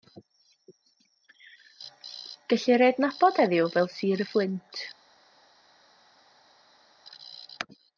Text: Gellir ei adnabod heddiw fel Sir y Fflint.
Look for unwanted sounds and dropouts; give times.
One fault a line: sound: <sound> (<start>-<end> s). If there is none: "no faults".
no faults